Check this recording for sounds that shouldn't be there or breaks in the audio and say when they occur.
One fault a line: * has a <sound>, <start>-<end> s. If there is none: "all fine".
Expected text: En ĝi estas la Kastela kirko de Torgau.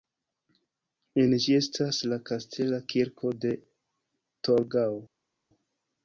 all fine